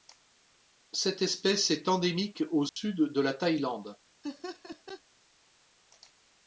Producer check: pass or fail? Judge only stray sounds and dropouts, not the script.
fail